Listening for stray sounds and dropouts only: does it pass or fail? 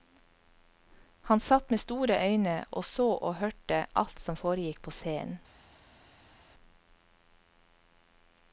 pass